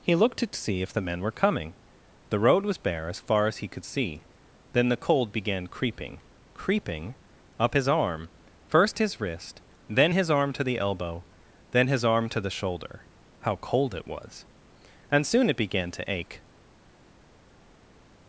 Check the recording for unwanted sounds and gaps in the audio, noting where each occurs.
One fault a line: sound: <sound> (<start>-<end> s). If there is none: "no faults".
no faults